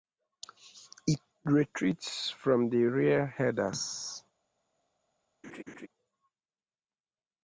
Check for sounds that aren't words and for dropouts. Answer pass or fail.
fail